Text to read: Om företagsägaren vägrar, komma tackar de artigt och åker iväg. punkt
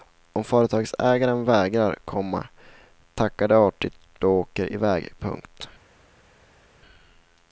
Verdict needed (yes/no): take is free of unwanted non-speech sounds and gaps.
yes